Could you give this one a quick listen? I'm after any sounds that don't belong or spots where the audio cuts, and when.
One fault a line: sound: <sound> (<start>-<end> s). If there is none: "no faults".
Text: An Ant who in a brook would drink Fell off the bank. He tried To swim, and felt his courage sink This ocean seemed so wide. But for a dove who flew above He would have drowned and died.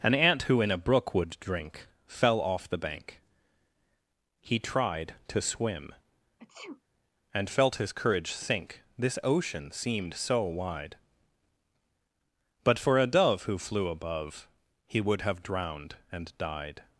sound: sneeze (6.4-6.8 s)